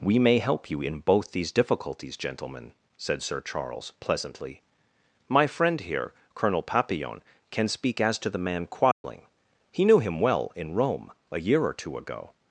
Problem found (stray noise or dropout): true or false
true